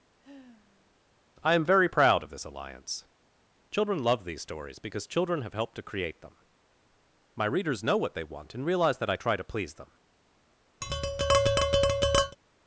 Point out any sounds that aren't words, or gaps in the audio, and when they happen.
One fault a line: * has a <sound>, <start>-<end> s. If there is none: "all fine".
* has a sigh, 0.2-0.9 s
* has a tap, 10.8-12.4 s